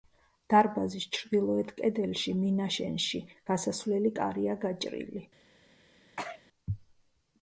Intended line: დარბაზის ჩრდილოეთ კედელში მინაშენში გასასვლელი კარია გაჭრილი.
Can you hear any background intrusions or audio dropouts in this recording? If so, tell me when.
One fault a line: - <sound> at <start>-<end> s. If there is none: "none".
- sneeze at 6.2-6.4 s